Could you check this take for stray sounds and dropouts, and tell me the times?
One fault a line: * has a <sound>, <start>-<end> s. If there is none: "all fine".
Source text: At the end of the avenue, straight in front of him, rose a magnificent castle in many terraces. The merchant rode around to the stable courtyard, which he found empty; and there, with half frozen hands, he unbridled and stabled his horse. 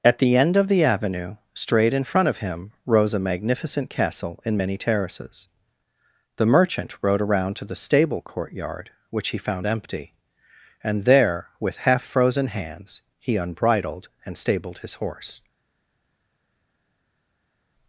all fine